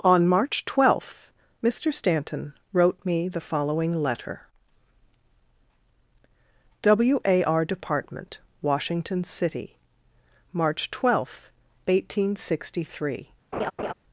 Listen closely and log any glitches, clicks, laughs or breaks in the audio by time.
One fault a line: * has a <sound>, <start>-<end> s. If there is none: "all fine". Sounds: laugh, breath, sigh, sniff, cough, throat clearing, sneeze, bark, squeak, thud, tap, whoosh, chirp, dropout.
* has a laugh, 13.5-13.9 s